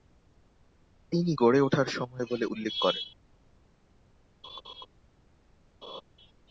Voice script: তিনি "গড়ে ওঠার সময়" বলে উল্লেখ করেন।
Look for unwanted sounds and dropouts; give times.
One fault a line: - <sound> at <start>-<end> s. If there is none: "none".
- laugh at 4.4-4.9 s
- laugh at 5.8-6.0 s